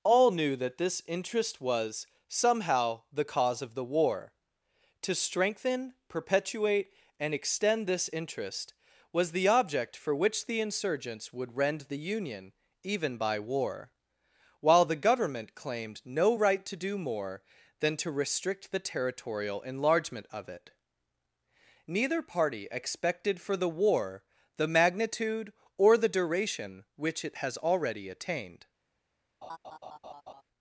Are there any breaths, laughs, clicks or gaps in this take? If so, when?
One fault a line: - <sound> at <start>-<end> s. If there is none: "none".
- laugh at 29.4-30.4 s